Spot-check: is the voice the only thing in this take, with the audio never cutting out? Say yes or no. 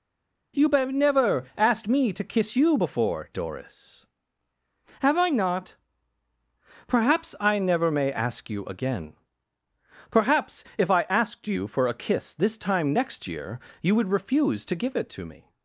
yes